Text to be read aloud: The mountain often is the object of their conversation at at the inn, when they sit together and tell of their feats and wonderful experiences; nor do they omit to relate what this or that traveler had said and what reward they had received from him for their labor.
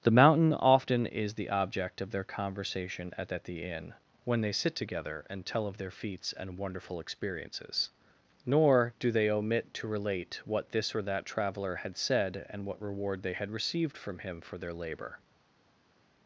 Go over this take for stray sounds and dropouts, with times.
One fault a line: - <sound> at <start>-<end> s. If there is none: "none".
none